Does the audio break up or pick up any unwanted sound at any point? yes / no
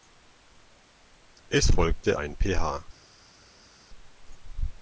no